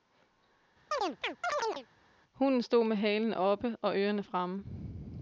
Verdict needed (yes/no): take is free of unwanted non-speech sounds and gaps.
no